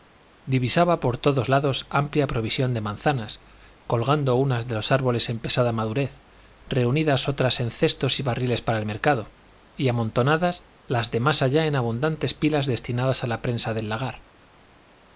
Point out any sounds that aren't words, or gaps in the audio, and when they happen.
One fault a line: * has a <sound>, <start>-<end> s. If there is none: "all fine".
all fine